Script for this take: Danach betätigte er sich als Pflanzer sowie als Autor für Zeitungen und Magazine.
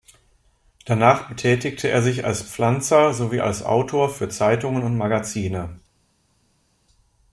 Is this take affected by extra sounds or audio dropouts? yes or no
no